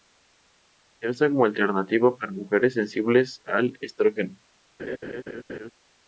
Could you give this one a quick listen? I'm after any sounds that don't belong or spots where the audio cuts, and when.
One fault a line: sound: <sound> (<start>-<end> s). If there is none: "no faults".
sound: laugh (4.8-5.7 s)